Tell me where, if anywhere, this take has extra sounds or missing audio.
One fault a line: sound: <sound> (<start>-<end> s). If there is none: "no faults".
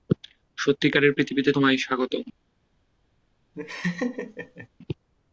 sound: laugh (3.5-4.7 s)